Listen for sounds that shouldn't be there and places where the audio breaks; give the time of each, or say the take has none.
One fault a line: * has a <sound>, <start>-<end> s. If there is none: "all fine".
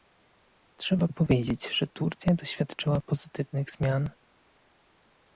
all fine